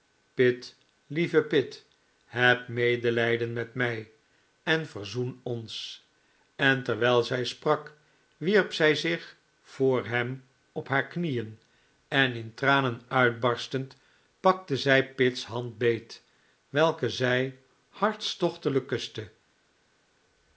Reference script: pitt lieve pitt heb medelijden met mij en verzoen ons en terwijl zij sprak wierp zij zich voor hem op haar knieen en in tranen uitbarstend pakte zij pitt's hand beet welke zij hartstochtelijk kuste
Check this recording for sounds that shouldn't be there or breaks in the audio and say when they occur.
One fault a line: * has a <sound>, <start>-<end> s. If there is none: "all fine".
all fine